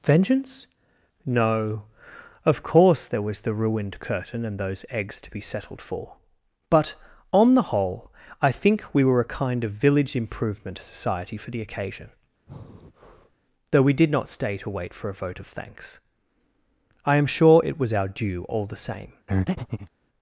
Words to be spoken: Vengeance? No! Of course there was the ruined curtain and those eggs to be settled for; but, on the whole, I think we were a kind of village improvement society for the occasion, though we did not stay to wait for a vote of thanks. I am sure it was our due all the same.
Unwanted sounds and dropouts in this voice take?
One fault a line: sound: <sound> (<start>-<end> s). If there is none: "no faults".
sound: breath (12.5-13.4 s)
sound: breath (19.3-19.9 s)